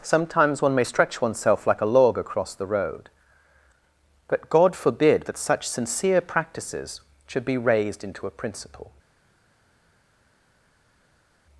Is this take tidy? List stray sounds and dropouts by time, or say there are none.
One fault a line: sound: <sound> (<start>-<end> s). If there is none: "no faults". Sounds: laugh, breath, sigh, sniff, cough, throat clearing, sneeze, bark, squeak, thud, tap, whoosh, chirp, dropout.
no faults